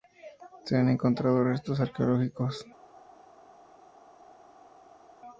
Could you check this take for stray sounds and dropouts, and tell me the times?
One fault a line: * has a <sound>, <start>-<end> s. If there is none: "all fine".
all fine